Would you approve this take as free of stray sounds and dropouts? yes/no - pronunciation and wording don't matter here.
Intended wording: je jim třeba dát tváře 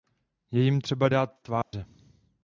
no